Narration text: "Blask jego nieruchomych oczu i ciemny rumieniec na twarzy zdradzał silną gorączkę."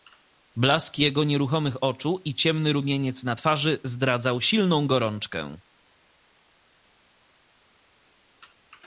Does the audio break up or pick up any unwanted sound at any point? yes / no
no